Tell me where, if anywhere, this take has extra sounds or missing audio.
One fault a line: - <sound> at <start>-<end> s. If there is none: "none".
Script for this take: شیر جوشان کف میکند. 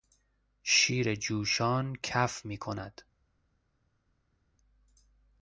none